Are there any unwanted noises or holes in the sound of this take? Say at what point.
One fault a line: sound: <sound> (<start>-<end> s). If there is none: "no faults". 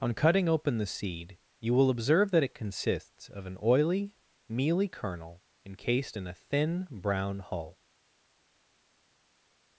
no faults